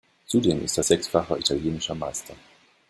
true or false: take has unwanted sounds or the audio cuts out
false